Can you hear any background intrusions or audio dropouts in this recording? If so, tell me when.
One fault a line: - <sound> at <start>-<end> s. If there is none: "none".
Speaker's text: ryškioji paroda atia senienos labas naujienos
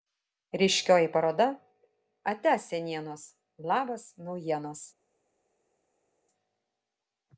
none